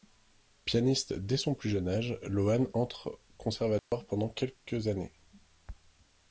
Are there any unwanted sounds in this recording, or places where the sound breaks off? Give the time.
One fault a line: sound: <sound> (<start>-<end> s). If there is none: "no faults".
sound: dropout (3.8-3.9 s)